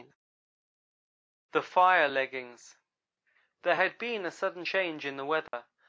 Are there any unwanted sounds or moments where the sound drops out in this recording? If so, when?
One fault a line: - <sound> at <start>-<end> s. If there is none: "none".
- dropout at 5.5-5.5 s